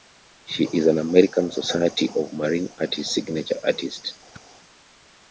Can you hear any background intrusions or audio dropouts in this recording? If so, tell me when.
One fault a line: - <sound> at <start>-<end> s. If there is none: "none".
- whoosh at 4.3-4.4 s